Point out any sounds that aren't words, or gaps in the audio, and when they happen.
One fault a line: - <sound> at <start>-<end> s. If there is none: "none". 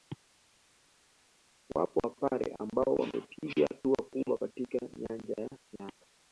none